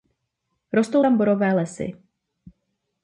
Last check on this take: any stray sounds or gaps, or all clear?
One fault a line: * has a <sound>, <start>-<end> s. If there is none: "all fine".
all fine